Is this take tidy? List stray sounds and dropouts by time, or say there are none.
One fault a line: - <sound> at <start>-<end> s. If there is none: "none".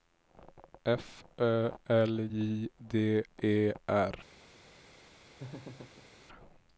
- laugh at 5.4-6.1 s